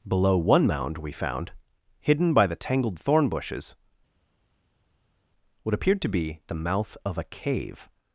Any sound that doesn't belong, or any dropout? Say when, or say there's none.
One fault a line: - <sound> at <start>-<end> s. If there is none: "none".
none